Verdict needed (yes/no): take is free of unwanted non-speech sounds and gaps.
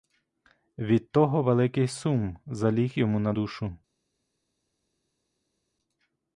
yes